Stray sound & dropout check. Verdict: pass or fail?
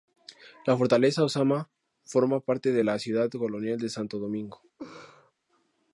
fail